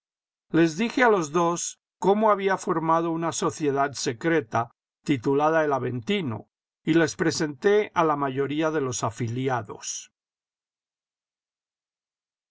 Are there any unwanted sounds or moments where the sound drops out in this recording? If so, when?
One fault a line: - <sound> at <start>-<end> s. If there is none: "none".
none